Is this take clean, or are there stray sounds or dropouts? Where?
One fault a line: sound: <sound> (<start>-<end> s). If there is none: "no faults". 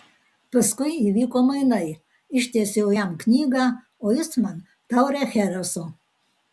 no faults